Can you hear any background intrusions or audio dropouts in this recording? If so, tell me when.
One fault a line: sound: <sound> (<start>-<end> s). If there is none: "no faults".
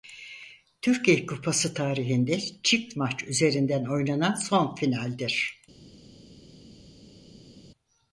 no faults